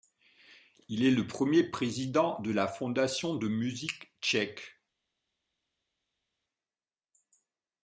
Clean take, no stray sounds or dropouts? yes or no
yes